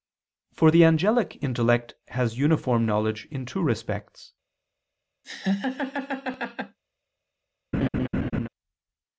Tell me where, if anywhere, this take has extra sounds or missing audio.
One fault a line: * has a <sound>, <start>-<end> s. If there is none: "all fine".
* has a laugh, 5.2-6.8 s
* has a laugh, 7.7-8.5 s